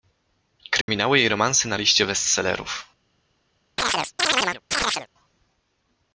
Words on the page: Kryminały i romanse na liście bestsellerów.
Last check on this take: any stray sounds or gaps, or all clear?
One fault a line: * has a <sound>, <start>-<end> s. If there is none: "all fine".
* has a dropout, 0.8-0.9 s
* has a chirp, 3.8-5.1 s